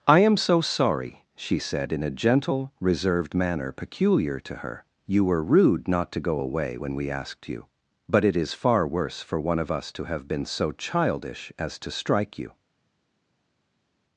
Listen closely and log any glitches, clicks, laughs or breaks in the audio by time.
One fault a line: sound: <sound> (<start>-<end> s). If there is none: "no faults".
no faults